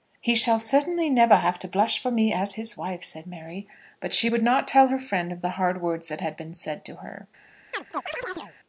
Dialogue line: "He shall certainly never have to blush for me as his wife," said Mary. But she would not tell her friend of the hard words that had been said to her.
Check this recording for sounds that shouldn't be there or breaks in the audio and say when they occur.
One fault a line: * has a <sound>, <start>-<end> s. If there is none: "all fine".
* has a chirp, 7.7-8.5 s